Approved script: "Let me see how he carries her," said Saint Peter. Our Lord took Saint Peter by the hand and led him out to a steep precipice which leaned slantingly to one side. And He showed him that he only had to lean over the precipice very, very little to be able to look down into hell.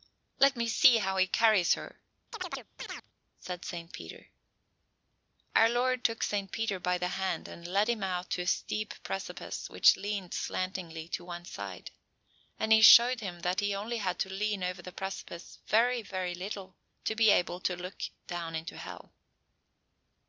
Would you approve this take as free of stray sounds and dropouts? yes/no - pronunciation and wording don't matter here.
no